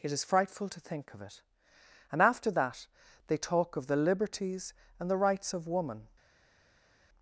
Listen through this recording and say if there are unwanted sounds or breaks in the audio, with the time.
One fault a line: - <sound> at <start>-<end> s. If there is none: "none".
none